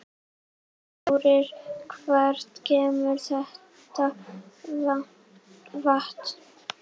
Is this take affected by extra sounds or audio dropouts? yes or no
no